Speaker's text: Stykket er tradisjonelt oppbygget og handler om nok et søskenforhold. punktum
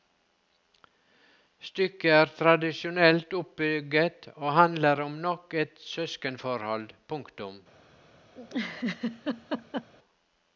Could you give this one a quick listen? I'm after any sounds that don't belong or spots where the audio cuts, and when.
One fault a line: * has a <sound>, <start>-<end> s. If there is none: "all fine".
* has a laugh, 8.3-9.9 s